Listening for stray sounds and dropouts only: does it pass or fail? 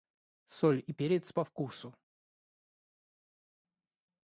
pass